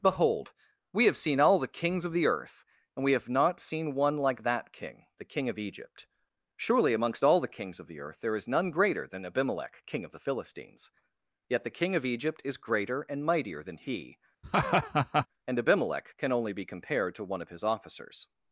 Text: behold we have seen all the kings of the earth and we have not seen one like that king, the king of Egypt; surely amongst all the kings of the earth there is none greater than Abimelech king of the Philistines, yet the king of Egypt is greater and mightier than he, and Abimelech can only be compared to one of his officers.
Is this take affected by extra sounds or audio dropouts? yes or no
yes